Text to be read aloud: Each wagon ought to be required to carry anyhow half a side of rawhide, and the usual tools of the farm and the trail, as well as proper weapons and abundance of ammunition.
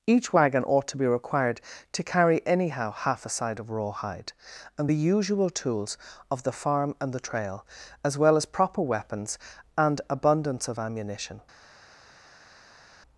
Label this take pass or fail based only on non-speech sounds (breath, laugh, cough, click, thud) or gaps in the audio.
pass